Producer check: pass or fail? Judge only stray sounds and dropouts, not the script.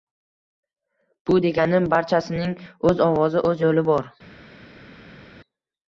pass